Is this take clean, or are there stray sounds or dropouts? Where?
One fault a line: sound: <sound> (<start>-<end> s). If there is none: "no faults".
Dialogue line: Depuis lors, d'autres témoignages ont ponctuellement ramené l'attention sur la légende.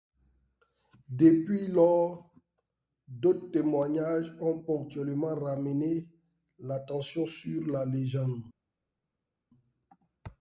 no faults